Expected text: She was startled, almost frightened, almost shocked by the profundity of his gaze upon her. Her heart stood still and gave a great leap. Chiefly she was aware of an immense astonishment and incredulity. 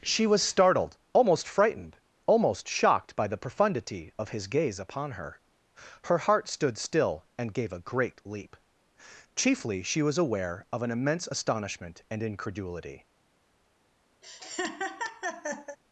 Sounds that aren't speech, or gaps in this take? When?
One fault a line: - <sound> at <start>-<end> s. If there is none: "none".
- laugh at 14.2-15.8 s